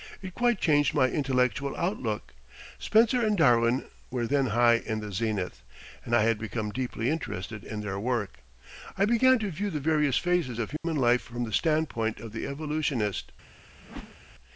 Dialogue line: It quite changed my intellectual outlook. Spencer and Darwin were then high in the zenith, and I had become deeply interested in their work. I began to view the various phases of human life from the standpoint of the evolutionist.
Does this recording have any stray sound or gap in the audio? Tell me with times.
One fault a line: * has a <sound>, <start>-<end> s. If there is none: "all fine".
* has a dropout, 10.8-10.8 s
* has a whoosh, 13.8-14.2 s